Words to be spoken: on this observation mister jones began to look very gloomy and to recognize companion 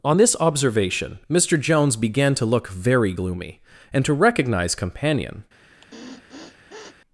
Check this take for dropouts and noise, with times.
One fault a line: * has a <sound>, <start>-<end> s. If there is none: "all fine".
* has a sniff, 5.7-7.0 s